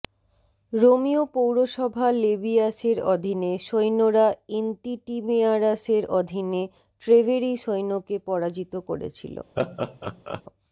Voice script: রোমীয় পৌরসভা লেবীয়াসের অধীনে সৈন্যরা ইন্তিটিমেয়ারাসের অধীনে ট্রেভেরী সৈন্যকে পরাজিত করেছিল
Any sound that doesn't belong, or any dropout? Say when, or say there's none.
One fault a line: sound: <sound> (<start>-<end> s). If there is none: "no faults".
sound: laugh (9.6-10.4 s)